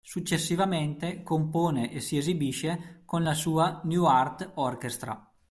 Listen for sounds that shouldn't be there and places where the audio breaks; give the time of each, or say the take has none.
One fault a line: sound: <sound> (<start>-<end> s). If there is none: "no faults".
no faults